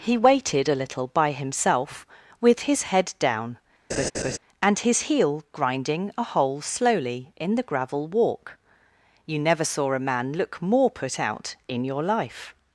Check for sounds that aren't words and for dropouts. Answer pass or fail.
fail